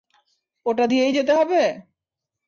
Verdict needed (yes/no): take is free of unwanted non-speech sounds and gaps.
yes